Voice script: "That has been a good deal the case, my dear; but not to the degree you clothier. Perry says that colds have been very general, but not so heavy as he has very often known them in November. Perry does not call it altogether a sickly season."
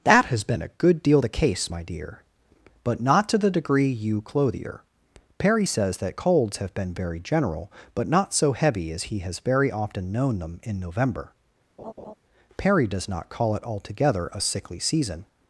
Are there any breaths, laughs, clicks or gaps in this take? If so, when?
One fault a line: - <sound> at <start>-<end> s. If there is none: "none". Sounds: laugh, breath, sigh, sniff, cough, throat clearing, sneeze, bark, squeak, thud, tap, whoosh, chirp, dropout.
- laugh at 11.8-12.1 s